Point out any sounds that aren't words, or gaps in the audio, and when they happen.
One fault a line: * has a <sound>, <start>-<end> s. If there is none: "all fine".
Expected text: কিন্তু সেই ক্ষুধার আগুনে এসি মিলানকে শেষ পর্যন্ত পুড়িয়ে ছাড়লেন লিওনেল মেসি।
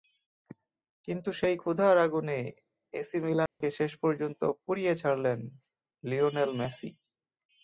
* has a dropout, 3.5-3.6 s